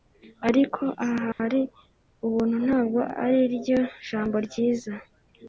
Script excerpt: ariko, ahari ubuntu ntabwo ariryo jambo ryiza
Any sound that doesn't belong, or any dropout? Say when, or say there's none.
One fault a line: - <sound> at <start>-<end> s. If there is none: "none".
- dropout at 1.3-1.4 s